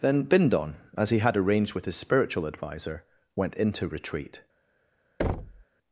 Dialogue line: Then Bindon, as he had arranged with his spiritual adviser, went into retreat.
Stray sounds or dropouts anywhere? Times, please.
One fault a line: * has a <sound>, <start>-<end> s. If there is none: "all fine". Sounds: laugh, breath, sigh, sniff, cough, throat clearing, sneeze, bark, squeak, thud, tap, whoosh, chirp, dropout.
* has a thud, 5.2-5.6 s